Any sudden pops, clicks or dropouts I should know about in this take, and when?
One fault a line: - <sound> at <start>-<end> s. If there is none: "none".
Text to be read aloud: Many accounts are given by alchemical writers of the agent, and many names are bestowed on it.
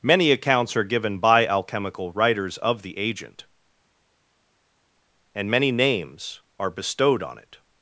none